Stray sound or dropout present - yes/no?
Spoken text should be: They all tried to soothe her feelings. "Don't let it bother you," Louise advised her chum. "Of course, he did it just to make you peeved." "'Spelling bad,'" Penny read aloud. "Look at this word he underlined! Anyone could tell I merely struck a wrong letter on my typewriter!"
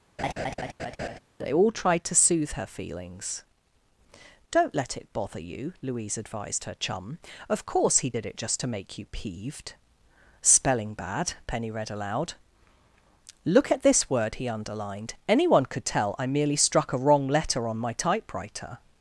yes